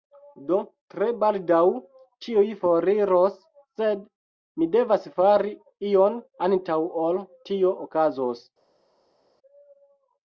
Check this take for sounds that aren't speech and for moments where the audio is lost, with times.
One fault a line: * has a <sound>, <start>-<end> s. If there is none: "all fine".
all fine